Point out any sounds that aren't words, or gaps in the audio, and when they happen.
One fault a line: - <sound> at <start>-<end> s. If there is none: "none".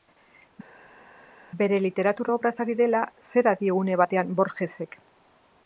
none